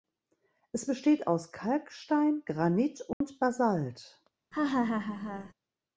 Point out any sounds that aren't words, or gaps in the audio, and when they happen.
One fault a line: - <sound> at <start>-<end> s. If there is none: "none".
- dropout at 3.1-3.2 s
- laugh at 4.5-5.5 s